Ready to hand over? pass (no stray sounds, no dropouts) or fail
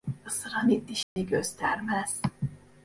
fail